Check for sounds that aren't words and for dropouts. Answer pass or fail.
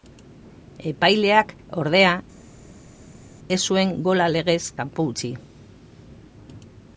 pass